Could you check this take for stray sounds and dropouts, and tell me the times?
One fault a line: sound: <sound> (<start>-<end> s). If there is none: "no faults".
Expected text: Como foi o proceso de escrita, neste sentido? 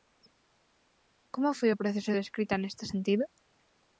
no faults